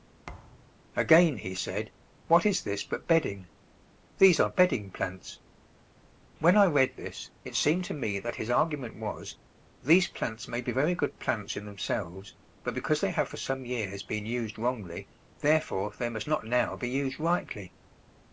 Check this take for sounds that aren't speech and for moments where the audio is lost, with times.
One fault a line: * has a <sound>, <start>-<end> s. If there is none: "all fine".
* has a thud, 0.3-0.8 s